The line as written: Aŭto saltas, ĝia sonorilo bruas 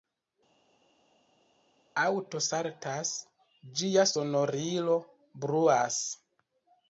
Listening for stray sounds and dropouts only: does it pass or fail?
pass